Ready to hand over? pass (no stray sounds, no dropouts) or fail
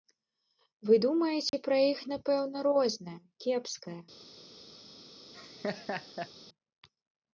fail